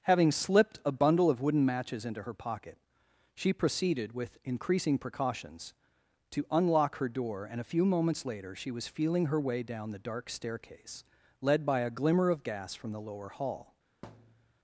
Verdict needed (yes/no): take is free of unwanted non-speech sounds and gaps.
no